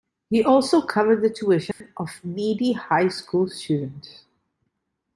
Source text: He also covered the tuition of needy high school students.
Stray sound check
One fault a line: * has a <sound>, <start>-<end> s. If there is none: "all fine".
* has a dropout, 1.7-1.8 s